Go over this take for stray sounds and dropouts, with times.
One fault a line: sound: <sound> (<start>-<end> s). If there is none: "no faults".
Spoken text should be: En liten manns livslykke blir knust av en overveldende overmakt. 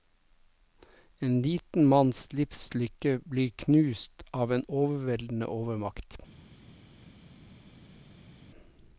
no faults